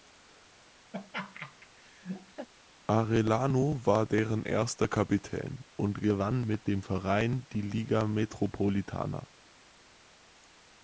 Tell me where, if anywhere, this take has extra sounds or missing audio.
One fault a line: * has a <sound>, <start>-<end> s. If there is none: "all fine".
* has a laugh, 0.9-2.5 s